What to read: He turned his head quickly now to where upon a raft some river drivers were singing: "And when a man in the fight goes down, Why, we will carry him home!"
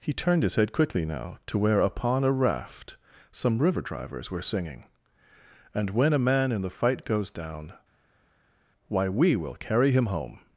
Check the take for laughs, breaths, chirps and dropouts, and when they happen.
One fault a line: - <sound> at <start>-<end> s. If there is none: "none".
none